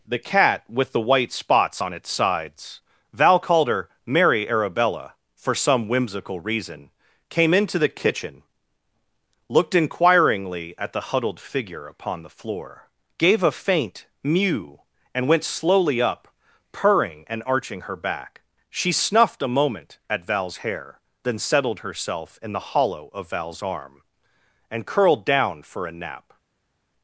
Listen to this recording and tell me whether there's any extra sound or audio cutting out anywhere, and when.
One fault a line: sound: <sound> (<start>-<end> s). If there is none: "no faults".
no faults